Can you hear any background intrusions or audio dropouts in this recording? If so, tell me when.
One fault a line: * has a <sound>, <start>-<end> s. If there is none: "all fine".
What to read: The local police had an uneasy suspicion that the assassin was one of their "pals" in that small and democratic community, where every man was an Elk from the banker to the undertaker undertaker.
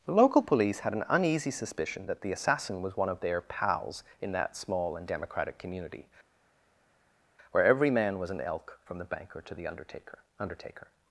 all fine